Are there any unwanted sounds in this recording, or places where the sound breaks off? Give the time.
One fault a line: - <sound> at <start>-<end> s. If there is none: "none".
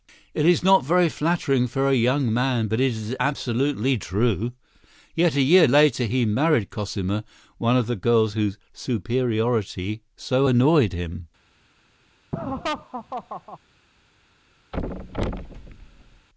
- laugh at 12.3-13.6 s
- thud at 14.7-16.3 s